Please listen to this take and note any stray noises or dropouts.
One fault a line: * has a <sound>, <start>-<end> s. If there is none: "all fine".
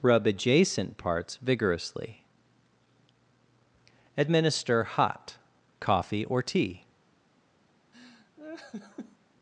* has a laugh, 7.9-9.2 s